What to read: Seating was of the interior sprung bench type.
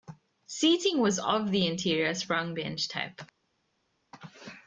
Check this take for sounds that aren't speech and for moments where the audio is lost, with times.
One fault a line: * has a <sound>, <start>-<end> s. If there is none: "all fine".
all fine